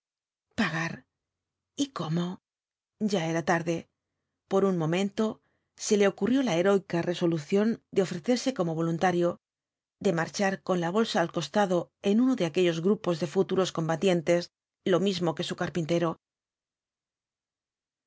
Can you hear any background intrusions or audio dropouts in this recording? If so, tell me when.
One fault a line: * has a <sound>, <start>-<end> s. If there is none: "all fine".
all fine